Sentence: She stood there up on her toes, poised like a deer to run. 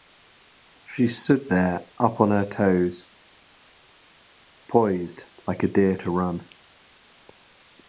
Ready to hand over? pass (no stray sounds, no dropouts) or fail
pass